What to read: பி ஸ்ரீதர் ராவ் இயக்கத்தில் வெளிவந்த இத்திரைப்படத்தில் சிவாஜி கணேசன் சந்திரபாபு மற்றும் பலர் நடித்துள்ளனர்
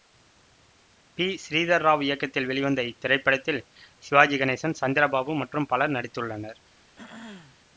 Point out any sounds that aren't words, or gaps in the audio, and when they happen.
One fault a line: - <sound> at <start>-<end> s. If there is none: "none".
- throat clearing at 7.0-7.6 s